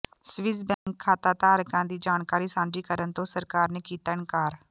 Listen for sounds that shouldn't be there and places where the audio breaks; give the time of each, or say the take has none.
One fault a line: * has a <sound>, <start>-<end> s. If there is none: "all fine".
* has a dropout, 0.7-0.9 s